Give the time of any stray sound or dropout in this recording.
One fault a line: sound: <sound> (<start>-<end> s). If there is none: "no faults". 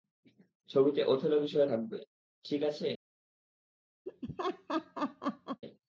sound: laugh (4.1-5.6 s)